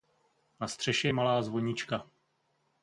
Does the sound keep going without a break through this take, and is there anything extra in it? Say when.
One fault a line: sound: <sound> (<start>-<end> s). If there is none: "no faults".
no faults